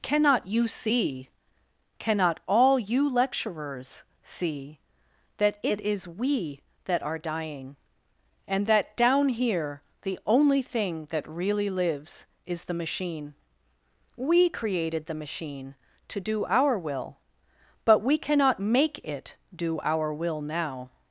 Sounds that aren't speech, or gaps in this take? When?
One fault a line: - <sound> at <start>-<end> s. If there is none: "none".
none